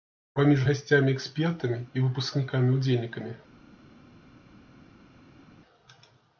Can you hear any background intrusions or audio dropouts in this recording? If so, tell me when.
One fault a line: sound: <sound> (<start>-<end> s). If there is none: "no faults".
no faults